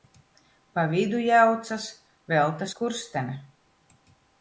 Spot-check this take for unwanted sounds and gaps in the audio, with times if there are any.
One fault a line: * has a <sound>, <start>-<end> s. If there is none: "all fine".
all fine